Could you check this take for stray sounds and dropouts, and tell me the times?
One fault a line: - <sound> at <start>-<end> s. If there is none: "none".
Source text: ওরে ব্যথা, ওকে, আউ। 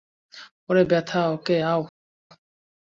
none